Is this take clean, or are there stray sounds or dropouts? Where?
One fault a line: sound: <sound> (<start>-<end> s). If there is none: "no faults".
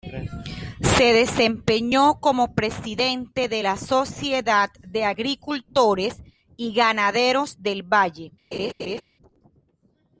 sound: laugh (8.5-9.0 s)